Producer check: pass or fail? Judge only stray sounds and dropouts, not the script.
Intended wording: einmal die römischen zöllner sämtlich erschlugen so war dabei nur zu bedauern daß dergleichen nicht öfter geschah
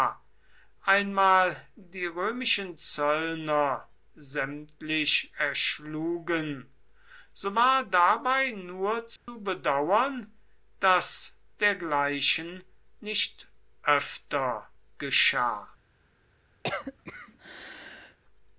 fail